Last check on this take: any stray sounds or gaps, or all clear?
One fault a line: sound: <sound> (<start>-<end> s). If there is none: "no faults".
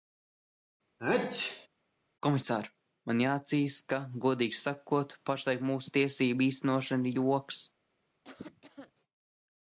sound: sneeze (1.0-1.7 s)
sound: cough (8.2-8.9 s)